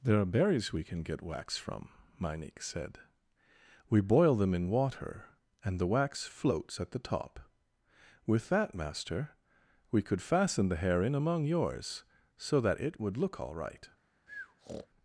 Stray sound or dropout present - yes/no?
yes